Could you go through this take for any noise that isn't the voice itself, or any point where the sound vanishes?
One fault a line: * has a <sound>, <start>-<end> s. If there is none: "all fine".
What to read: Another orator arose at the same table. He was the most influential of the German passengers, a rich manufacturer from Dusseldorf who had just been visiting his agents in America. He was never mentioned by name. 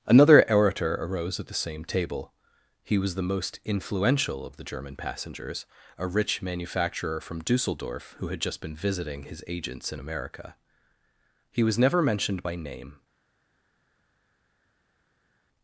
all fine